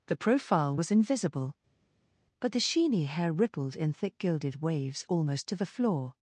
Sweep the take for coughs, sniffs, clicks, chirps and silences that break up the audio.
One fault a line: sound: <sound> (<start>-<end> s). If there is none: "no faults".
no faults